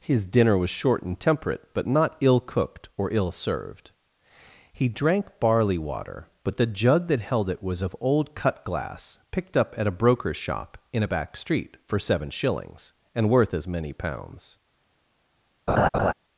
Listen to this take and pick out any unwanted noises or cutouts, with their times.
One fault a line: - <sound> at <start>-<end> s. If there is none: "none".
- laugh at 15.7-16.1 s